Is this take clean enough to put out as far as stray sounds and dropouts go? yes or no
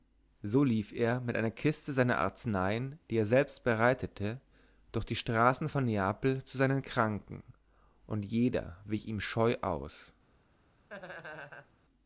no